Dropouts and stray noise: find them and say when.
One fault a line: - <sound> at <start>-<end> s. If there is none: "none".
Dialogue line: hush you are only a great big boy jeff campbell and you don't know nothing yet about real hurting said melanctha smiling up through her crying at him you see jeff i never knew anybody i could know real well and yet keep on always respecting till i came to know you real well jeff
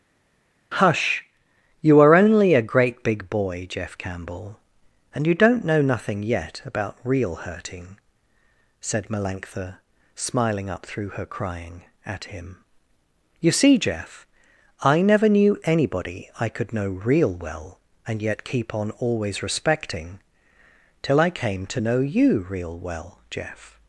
none